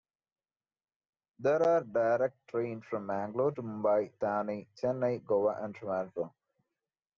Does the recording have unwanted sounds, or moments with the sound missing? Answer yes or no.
no